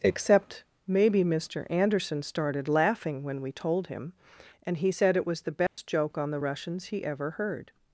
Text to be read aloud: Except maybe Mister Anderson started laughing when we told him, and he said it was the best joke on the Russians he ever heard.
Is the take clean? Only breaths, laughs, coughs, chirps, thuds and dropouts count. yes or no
no